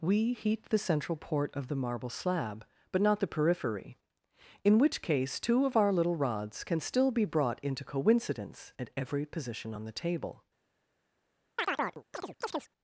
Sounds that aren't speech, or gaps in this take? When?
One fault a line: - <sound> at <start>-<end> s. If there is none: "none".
- chirp at 11.6-12.7 s